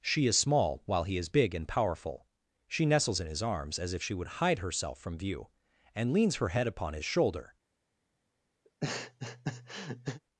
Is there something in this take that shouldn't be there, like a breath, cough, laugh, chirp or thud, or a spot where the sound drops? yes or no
yes